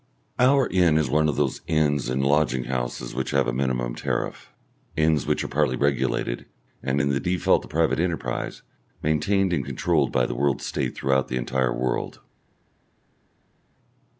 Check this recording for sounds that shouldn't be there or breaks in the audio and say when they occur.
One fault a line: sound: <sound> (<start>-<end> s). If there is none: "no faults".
no faults